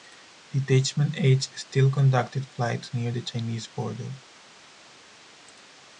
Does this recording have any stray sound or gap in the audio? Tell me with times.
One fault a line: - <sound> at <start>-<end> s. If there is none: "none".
none